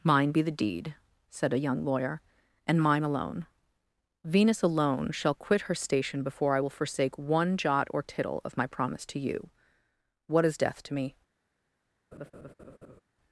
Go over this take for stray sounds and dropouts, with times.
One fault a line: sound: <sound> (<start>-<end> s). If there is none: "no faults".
sound: laugh (12.1-13.0 s)